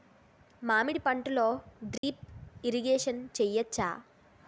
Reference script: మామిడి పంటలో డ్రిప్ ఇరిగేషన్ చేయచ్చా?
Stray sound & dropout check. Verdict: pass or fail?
fail